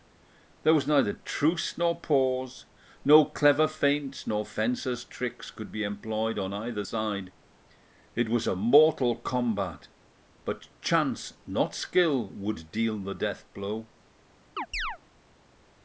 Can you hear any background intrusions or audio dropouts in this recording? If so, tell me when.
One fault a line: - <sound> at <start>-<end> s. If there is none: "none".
- chirp at 14.6-15.0 s